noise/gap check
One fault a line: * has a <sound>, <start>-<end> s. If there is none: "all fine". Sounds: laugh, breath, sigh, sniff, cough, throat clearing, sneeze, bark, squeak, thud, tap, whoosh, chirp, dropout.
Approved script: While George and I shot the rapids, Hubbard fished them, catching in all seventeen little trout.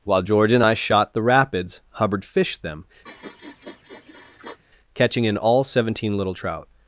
* has a sniff, 3.0-4.6 s